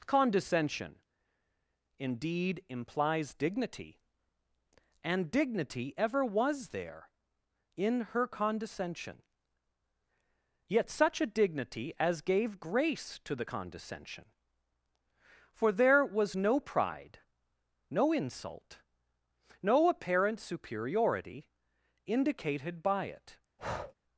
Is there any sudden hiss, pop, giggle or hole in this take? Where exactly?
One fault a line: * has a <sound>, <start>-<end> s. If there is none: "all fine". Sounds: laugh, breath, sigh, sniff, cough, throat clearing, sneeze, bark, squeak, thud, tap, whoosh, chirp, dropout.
* has a breath, 23.6-23.9 s